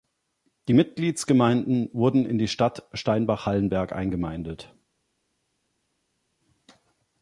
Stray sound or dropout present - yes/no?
no